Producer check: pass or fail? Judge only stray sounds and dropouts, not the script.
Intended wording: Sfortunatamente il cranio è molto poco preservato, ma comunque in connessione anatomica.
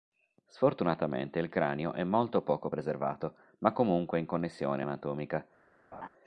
fail